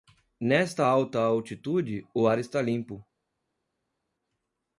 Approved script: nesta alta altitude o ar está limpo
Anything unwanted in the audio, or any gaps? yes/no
no